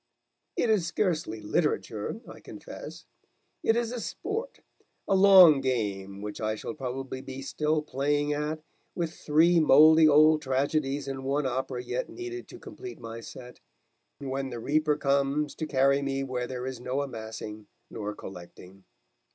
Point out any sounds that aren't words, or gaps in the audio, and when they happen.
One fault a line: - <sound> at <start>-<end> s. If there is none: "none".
none